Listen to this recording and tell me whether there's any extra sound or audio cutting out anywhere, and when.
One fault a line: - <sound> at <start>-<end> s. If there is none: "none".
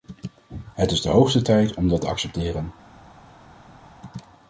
none